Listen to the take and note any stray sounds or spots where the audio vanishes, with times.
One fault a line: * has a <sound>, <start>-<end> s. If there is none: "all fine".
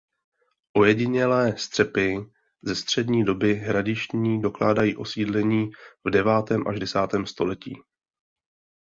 all fine